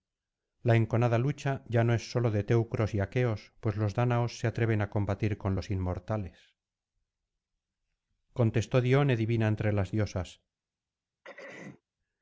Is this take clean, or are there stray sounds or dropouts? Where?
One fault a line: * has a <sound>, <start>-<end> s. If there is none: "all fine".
* has a throat clearing, 11.2-11.8 s